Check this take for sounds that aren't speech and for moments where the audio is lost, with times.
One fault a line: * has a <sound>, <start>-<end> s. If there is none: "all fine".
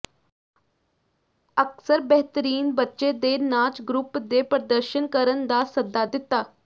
all fine